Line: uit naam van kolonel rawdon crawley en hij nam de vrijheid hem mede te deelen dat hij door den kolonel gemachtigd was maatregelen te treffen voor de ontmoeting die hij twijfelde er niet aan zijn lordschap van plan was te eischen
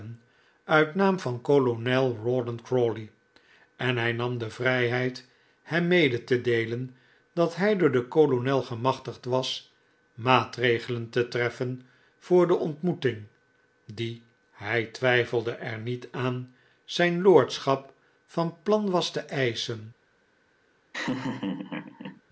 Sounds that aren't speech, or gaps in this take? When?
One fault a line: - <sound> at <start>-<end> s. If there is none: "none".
- laugh at 20.9-22.2 s